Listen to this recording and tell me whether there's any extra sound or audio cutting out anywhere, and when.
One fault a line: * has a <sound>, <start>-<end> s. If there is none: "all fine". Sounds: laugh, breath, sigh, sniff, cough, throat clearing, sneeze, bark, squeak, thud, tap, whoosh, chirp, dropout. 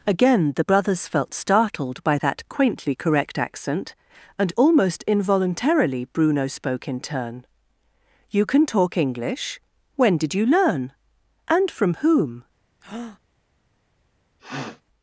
* has a breath, 12.8-13.2 s
* has a sniff, 14.4-14.8 s